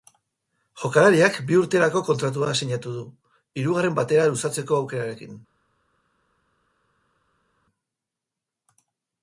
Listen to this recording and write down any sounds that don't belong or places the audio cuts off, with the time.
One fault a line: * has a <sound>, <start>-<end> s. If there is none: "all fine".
all fine